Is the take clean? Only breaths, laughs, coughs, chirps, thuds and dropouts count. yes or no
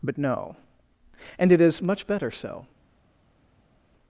yes